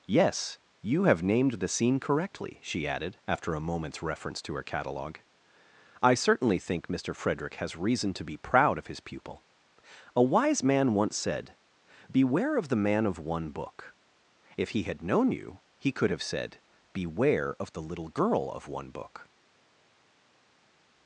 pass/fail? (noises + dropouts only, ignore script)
pass